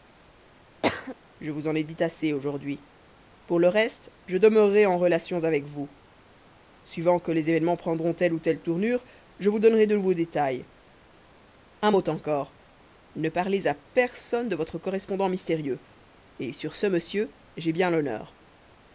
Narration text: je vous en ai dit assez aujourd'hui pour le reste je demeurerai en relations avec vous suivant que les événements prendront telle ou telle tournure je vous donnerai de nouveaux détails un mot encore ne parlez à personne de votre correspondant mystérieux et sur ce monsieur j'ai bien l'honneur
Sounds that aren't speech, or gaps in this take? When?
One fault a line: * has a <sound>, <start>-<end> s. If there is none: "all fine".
* has a cough, 0.8-1.2 s